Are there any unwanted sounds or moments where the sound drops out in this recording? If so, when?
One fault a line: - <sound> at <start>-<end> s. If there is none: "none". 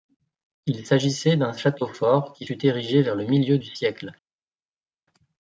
none